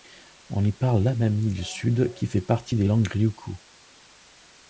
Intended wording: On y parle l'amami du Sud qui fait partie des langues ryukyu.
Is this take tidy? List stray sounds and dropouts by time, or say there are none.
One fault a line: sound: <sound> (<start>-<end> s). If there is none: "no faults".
no faults